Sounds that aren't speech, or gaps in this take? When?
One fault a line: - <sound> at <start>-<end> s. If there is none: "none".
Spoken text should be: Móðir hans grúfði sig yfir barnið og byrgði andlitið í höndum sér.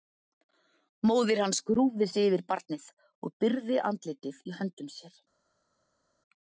none